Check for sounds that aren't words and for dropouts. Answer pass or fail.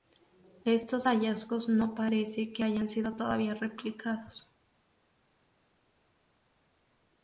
pass